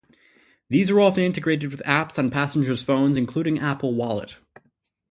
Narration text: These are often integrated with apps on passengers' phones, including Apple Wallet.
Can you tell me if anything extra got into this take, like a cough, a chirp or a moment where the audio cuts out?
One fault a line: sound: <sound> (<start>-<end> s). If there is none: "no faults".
no faults